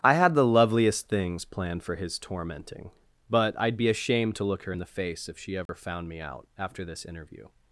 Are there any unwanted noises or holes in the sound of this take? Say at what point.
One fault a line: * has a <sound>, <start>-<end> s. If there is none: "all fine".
* has a dropout, 5.7-5.7 s